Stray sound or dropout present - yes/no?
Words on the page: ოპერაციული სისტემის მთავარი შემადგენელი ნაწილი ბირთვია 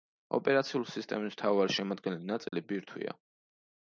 yes